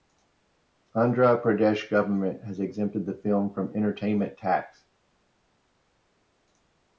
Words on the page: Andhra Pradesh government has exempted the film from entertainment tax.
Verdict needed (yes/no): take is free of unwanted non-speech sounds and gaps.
yes